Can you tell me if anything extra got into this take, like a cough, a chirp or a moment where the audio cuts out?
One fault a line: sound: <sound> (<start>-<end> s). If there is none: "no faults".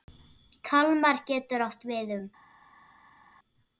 no faults